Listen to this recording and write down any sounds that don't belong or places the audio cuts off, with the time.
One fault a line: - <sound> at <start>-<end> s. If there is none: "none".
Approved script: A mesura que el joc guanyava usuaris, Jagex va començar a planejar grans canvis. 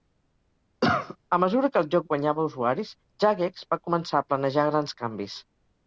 - cough at 0.8-1.2 s